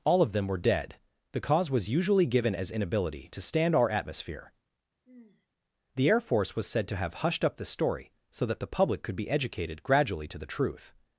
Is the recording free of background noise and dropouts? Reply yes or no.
no